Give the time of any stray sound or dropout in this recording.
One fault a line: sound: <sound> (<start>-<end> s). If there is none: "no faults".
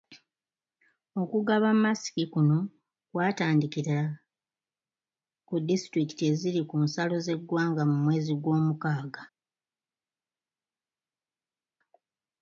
no faults